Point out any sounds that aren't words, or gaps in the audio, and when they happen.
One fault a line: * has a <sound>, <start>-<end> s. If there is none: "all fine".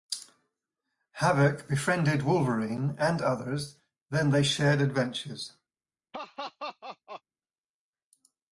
* has a laugh, 6.1-7.2 s